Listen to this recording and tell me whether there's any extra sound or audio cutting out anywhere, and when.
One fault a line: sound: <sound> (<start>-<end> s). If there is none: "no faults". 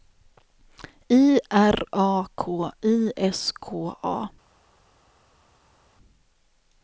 no faults